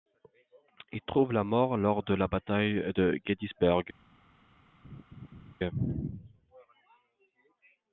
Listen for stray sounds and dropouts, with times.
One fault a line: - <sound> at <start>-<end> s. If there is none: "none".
- laugh at 4.8-5.5 s